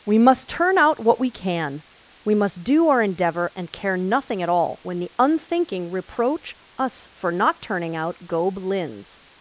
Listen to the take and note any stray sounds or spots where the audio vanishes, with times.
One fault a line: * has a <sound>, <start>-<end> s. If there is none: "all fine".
all fine